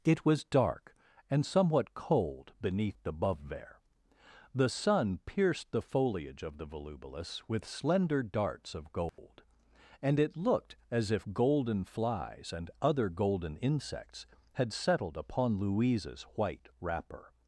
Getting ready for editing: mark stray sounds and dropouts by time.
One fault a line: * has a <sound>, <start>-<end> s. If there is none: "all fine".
* has a dropout, 9.1-9.2 s